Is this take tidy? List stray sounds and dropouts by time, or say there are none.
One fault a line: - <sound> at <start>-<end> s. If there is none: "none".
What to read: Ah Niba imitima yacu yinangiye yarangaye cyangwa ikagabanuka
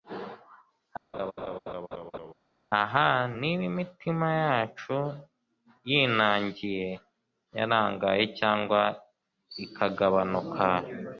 - laugh at 1.1-2.3 s